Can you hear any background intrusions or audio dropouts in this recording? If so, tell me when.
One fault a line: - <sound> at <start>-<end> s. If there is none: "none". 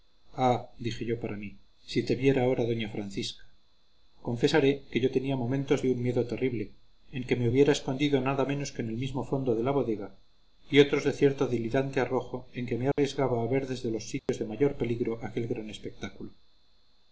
- dropout at 12.9-13.0 s
- dropout at 14.2-14.3 s